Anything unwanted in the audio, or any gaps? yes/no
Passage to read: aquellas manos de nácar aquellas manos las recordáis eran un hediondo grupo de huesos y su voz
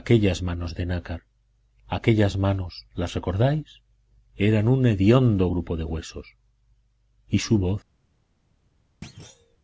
yes